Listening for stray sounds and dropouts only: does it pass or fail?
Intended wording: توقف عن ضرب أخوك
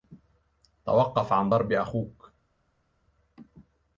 pass